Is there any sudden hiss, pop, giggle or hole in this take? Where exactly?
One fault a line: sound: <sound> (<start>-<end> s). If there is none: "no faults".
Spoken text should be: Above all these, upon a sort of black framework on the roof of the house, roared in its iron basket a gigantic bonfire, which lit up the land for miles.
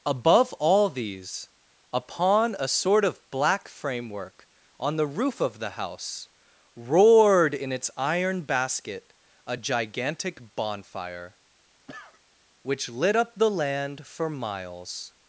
sound: cough (11.9-12.2 s)